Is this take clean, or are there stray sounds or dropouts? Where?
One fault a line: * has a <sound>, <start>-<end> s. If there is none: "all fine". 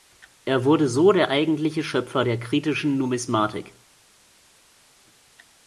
all fine